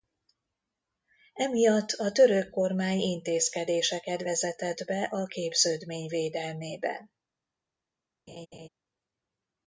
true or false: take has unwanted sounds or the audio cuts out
true